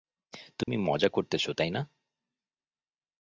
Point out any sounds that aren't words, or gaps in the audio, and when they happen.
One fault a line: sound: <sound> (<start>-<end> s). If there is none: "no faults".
sound: dropout (0.6-0.7 s)